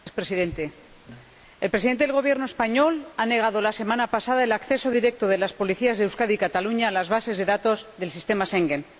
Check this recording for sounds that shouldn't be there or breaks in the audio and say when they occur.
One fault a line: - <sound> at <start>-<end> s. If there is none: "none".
none